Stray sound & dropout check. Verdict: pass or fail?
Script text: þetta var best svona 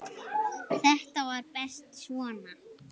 pass